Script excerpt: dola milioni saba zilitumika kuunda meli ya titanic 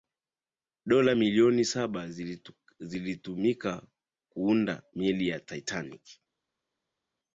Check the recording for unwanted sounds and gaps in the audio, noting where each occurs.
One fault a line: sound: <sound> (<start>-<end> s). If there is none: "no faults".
no faults